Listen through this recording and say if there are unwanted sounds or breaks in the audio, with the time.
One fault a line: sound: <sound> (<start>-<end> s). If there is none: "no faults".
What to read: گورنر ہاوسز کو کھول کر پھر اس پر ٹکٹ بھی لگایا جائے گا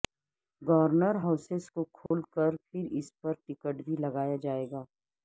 sound: dropout (2.1-2.1 s)